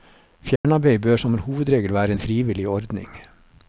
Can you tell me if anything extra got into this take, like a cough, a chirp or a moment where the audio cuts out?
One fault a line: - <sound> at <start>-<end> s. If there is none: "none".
- dropout at 0.6-0.6 s